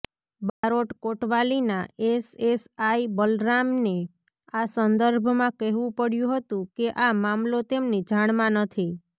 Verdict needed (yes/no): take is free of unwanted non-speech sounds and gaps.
no